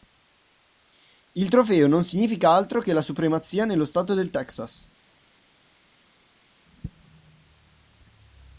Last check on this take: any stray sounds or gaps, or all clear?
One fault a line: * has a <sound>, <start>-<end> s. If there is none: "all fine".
all fine